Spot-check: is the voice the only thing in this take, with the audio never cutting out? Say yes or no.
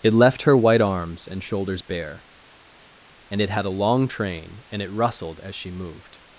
yes